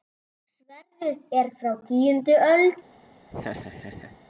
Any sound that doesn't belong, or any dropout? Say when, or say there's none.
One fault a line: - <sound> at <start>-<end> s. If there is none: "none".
- laugh at 3.3-4.2 s